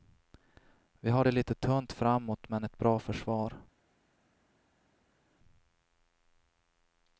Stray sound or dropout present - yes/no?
no